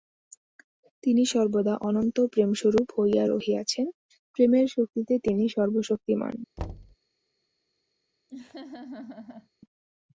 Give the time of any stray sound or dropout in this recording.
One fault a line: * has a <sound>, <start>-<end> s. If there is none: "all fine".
* has a thud, 6.6-7.0 s
* has a laugh, 8.3-9.5 s